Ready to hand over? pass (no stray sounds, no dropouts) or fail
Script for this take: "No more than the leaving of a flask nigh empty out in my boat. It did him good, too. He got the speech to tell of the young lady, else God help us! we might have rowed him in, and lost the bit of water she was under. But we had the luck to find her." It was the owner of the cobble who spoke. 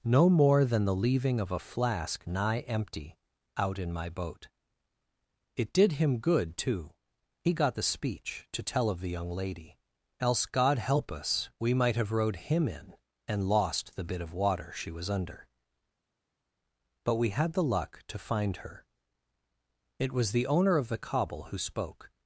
pass